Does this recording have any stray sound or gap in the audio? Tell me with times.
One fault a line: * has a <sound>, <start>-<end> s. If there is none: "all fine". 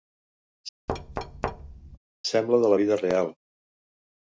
* has a thud, 0.9-2.0 s